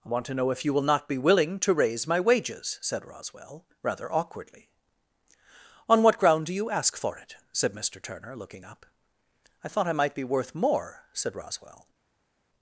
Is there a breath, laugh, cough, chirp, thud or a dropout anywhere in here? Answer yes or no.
no